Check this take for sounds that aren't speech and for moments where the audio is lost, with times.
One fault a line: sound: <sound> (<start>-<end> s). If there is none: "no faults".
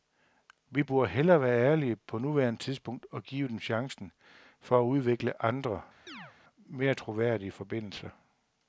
sound: chirp (6.1-6.3 s)